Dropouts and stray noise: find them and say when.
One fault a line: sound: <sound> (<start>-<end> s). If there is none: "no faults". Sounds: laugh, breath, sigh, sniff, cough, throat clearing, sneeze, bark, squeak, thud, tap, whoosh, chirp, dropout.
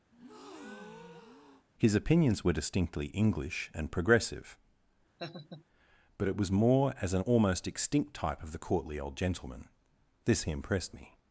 sound: breath (0.1-1.7 s)
sound: laugh (5.2-5.6 s)